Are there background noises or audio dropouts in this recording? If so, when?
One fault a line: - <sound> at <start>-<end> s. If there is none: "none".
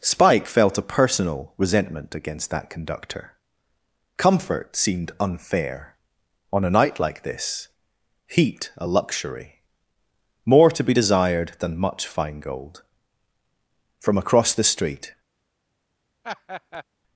- laugh at 16.2-16.8 s